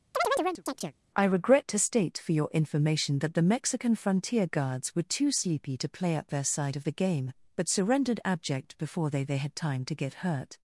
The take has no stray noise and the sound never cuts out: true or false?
false